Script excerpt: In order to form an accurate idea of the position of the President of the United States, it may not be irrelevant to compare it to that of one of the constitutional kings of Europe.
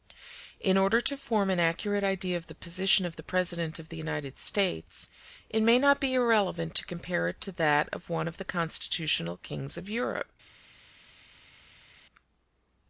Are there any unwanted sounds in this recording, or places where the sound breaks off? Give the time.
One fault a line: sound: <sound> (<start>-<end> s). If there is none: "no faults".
no faults